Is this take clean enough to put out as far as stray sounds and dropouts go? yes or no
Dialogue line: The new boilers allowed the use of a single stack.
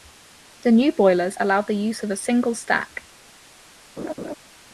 no